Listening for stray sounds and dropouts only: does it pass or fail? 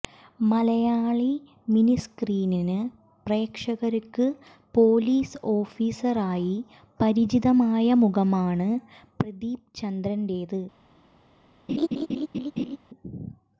fail